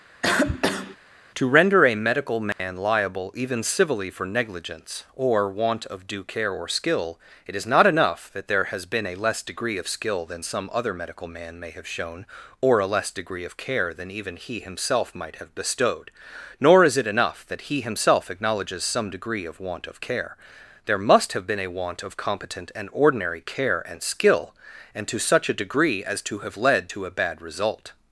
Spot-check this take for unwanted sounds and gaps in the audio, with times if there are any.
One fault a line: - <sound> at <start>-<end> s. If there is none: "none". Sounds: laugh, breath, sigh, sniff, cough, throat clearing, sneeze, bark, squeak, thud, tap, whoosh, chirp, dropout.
- cough at 0.2-1.0 s
- dropout at 2.5-2.6 s